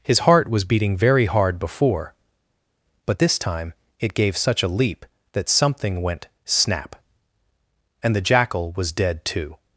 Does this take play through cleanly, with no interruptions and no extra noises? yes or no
yes